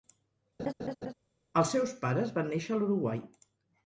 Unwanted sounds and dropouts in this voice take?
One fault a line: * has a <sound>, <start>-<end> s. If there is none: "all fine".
* has a laugh, 0.6-1.1 s